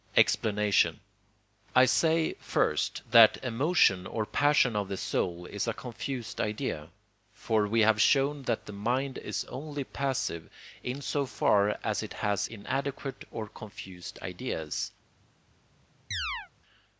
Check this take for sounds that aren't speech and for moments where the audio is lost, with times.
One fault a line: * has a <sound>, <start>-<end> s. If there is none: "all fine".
* has a chirp, 16.1-16.5 s